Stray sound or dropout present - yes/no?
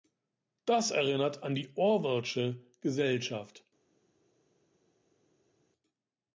no